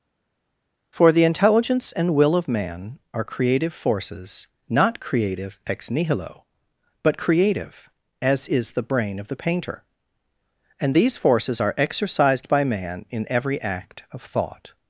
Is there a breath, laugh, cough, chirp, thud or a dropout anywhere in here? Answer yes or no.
no